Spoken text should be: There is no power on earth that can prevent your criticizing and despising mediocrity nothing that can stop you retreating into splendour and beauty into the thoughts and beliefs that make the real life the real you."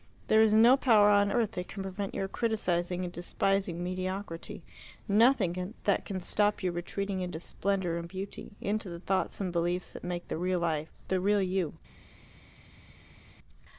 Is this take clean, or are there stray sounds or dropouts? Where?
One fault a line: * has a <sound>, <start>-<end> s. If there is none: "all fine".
all fine